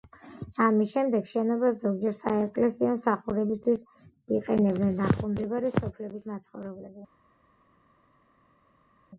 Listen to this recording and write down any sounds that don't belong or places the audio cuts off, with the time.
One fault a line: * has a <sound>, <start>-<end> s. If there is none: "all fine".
all fine